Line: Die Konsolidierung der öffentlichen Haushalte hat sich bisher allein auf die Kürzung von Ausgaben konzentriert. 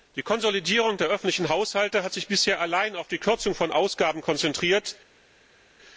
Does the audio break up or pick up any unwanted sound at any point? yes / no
no